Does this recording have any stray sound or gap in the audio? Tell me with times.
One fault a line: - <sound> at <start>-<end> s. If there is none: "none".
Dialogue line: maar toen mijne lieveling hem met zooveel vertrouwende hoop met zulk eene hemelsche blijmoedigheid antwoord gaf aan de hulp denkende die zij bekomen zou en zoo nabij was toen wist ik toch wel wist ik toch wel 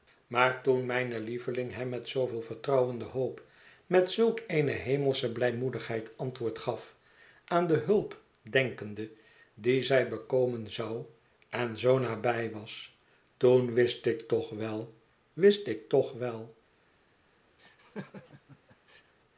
- laugh at 17.6-19.1 s